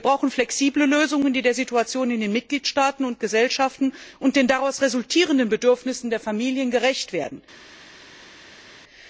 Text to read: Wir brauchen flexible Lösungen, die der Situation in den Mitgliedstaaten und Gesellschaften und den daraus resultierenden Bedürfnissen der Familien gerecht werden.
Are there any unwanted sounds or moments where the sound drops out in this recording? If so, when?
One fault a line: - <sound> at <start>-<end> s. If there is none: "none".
none